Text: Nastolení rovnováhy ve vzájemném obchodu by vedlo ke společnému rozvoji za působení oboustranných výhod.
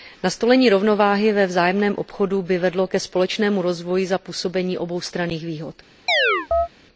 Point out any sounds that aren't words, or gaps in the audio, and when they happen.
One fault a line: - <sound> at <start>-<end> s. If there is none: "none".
- chirp at 6.1-6.7 s